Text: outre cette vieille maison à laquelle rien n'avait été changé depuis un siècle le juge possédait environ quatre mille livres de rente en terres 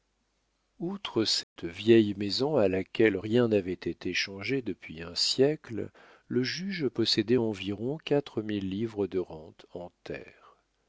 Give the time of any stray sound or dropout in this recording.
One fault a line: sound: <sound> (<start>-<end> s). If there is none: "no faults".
sound: dropout (1.4-1.6 s)